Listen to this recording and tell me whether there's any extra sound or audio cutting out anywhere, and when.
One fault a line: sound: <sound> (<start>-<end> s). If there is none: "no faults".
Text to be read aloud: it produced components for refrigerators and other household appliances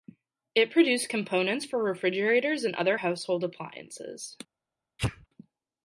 sound: sneeze (5.0-5.3 s)